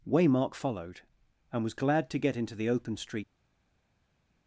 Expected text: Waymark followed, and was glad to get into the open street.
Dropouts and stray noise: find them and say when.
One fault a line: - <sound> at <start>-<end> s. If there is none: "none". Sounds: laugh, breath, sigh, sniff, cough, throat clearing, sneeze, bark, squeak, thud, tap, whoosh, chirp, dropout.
none